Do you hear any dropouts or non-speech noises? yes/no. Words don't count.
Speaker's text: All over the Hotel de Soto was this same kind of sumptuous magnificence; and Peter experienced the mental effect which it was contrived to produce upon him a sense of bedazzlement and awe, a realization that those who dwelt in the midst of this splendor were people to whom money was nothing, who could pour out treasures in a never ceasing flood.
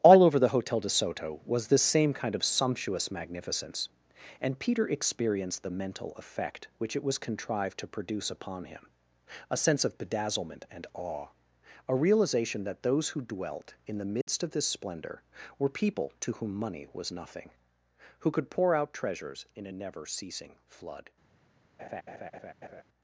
yes